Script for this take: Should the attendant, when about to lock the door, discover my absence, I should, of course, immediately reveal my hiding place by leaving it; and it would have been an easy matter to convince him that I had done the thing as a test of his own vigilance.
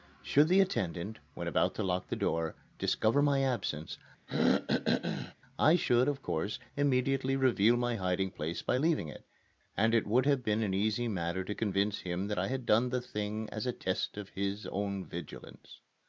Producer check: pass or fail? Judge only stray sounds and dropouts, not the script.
fail